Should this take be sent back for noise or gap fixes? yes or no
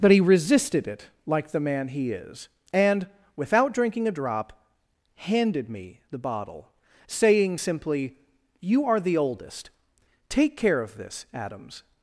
no